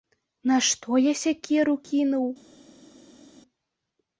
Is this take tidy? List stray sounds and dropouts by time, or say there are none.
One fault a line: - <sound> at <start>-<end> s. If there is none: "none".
none